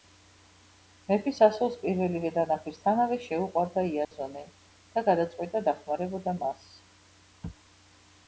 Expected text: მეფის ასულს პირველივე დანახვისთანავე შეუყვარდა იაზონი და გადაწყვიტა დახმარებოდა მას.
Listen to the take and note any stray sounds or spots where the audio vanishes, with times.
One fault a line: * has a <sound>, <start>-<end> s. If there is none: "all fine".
* has a dropout, 4.0-4.1 s